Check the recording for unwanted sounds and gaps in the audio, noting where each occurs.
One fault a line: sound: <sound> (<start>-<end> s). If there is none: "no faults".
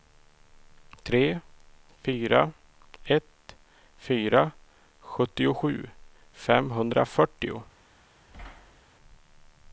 sound: thud (8.3-8.8 s)